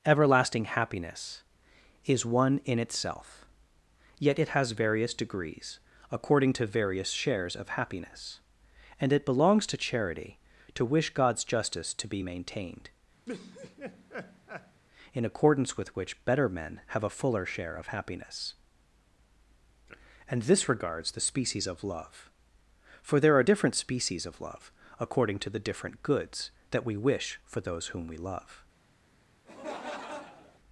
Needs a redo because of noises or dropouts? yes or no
yes